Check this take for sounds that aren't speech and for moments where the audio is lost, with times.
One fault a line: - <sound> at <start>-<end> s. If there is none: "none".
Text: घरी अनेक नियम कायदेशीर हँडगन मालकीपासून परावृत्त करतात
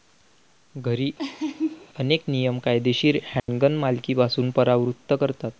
- laugh at 1.2-1.9 s
- dropout at 3.4-3.5 s